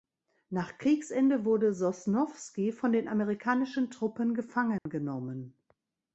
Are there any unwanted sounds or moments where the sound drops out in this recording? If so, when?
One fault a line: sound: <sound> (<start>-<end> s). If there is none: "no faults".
sound: dropout (4.8-4.9 s)